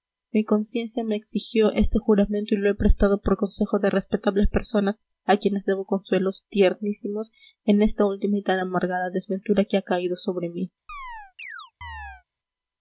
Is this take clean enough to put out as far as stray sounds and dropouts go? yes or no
no